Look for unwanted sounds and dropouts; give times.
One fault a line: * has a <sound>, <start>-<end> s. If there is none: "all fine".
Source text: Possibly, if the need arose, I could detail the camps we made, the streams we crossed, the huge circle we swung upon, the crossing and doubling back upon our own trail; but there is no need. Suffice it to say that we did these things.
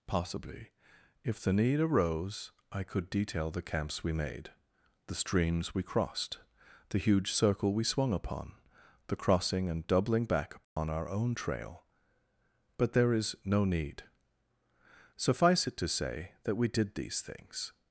* has a dropout, 10.6-10.8 s